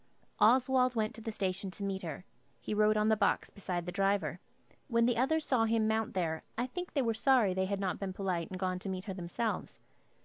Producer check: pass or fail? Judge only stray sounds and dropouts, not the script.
pass